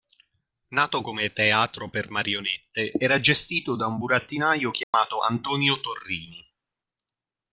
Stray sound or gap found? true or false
true